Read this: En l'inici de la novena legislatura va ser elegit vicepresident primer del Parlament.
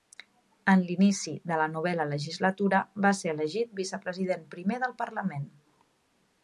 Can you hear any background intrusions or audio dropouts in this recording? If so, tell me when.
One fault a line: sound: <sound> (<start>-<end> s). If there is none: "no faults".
no faults